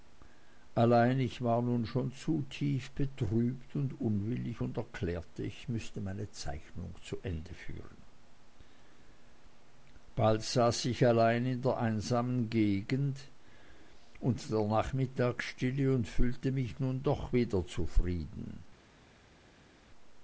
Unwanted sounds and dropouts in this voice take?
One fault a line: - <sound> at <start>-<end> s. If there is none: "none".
none